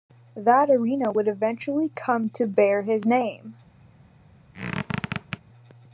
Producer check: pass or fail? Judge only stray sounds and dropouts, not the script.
fail